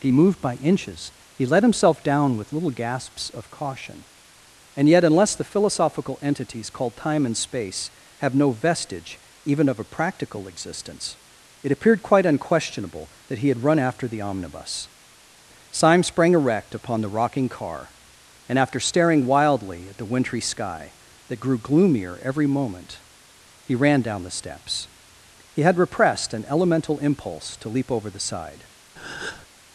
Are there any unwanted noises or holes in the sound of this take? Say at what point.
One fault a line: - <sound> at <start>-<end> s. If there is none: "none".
- breath at 29.0-29.5 s